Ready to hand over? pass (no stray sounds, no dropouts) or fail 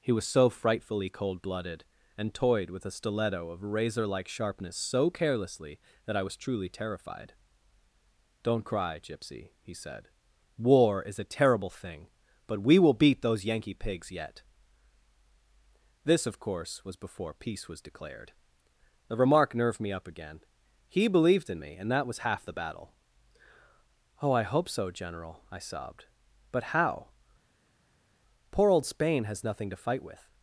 pass